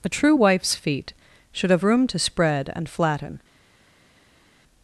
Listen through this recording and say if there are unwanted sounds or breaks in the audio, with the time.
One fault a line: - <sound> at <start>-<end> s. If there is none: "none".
none